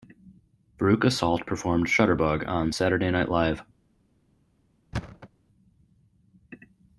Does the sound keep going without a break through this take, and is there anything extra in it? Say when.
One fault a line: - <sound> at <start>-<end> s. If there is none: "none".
- thud at 4.9-5.3 s